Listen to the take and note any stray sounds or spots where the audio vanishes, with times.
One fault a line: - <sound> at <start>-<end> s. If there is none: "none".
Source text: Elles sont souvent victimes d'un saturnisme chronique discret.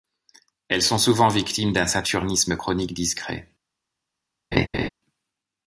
- laugh at 4.5-4.9 s